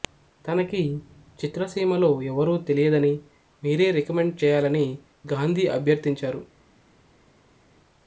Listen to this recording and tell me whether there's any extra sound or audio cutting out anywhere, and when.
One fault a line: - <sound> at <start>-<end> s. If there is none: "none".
none